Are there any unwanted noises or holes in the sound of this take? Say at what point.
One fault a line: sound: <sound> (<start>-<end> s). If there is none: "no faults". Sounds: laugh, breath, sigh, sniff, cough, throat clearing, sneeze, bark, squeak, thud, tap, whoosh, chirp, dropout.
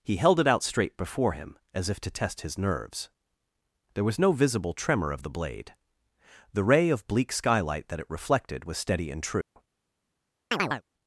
sound: dropout (9.4-9.6 s)
sound: chirp (10.5-10.8 s)